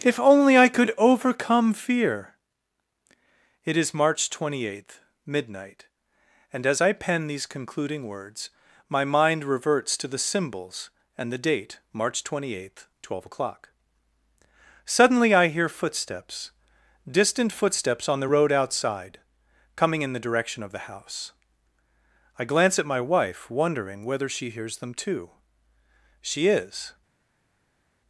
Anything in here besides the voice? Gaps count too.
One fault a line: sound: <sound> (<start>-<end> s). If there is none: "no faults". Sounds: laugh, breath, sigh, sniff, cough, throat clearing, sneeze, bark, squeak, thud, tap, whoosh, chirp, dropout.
no faults